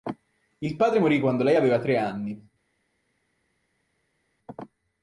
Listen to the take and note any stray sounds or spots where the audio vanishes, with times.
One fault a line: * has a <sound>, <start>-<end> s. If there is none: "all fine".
all fine